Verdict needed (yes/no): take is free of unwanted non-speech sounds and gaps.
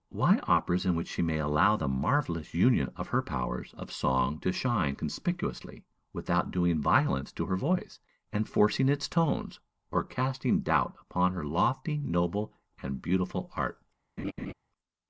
no